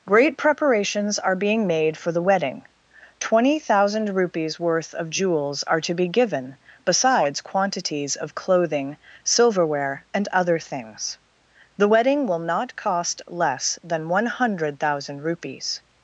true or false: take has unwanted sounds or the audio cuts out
false